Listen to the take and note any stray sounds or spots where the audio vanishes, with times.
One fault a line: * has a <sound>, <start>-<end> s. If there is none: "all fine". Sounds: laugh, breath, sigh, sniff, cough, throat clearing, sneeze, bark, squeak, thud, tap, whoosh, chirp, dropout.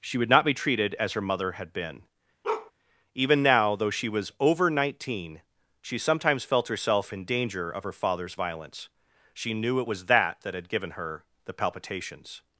* has a bark, 2.4-2.7 s